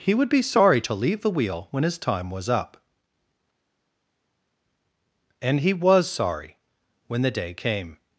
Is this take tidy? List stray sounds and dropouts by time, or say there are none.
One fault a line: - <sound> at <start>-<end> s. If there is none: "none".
none